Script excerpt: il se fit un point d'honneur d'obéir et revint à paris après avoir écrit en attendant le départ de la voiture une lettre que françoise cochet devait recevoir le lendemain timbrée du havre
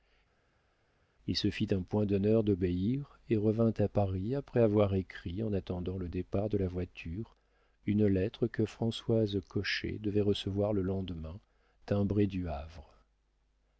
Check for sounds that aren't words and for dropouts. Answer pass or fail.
pass